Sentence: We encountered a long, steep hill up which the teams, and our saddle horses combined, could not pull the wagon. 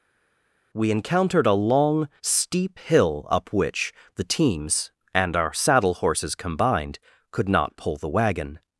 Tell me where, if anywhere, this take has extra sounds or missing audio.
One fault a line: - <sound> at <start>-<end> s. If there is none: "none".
none